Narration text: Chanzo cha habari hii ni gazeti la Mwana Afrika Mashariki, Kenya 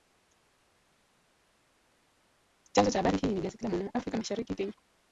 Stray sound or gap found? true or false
false